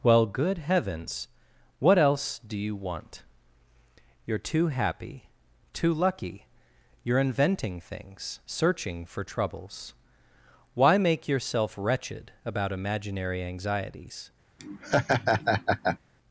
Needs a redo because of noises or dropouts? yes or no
yes